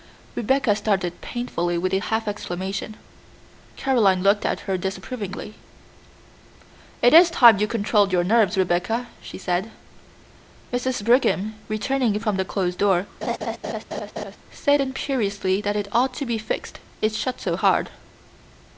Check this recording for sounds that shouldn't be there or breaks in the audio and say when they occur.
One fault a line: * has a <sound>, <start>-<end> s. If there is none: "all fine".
* has a laugh, 13.2-14.4 s